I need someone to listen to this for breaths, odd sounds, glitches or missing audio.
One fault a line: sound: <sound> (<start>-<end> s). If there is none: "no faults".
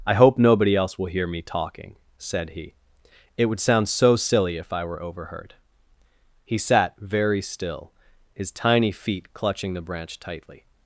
no faults